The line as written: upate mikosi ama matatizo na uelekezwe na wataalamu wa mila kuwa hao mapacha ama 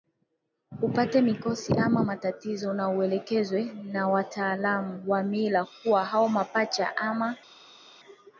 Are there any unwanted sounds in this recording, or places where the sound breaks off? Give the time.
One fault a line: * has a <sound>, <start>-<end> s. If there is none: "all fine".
all fine